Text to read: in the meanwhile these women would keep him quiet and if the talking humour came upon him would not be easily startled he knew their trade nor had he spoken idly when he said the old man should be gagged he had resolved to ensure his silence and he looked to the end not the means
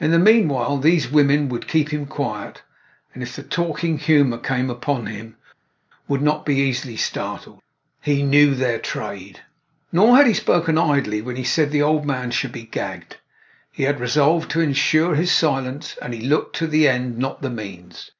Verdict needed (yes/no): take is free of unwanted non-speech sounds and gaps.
yes